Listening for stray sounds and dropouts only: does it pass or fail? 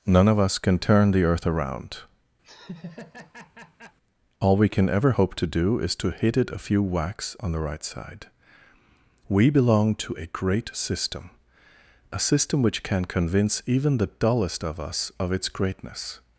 fail